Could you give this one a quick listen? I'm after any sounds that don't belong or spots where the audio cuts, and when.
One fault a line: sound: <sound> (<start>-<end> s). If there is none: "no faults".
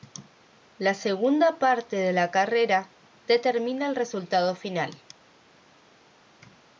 no faults